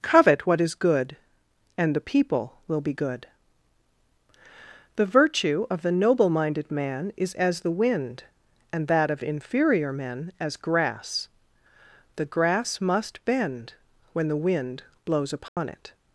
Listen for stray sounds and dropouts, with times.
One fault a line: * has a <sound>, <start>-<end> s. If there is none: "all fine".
* has a dropout, 15.5-15.6 s